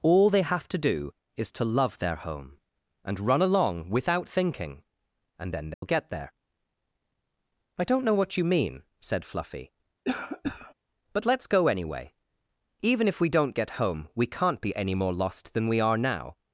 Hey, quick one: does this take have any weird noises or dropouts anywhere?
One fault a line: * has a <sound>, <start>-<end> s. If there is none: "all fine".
* has a dropout, 5.7-5.8 s
* has a cough, 10.1-10.7 s